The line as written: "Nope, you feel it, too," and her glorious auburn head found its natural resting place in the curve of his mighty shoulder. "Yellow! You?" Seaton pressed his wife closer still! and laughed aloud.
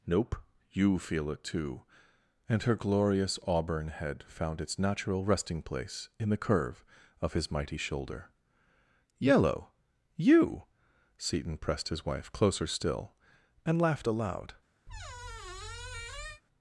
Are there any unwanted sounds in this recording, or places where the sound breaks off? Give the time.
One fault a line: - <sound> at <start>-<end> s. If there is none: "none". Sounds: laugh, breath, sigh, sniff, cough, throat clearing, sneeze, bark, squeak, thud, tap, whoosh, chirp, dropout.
- squeak at 14.9-16.4 s